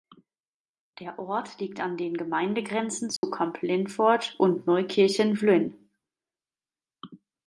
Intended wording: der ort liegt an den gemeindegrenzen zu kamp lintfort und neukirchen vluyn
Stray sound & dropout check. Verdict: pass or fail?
fail